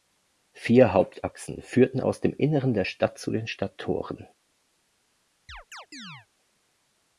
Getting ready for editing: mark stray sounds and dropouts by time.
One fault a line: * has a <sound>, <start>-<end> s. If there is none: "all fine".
* has a chirp, 5.5-6.3 s